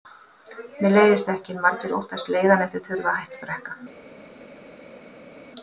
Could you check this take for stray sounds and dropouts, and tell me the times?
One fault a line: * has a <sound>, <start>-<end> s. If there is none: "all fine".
all fine